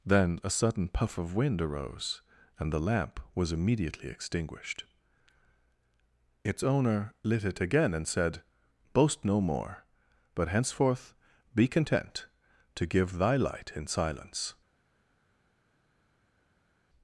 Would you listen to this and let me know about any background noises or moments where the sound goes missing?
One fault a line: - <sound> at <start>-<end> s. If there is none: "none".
none